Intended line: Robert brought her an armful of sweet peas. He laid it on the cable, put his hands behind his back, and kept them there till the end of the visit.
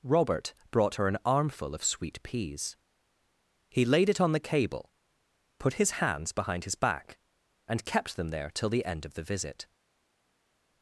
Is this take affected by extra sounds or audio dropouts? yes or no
no